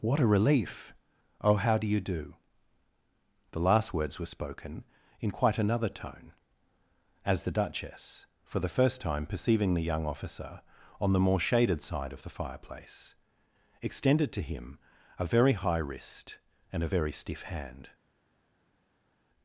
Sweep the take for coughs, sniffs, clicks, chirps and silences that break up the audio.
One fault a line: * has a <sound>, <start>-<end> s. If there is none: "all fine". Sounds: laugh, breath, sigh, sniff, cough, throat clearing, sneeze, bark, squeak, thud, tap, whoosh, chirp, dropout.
all fine